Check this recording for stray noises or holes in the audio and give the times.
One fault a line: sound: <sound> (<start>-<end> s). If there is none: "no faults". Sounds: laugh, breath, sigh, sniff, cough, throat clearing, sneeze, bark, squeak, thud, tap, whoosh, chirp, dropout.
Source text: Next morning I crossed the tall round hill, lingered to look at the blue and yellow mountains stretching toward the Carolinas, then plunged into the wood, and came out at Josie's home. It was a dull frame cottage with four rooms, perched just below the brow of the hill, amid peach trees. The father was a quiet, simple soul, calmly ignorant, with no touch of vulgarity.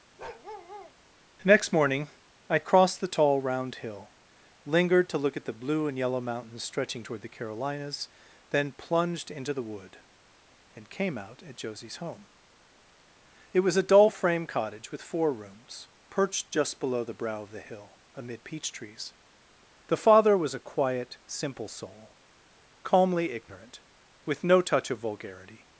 sound: bark (0.2-0.9 s)